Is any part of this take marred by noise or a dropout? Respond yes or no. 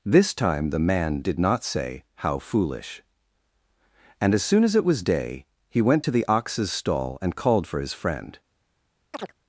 yes